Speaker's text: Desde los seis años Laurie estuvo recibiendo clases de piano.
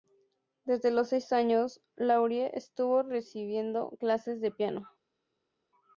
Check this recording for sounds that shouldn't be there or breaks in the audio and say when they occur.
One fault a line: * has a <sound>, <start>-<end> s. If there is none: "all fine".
all fine